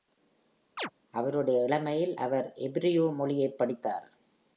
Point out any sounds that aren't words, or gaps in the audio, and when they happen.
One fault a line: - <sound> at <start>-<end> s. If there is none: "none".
- chirp at 0.8-0.9 s